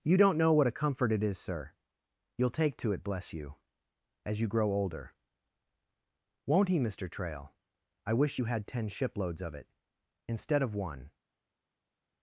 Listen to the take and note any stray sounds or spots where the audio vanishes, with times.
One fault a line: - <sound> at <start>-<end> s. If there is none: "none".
none